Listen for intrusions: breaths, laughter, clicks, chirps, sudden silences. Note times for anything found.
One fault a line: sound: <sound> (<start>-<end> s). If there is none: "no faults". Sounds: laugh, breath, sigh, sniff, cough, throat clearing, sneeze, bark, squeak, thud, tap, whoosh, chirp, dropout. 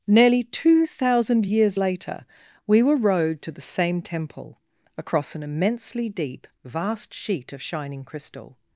no faults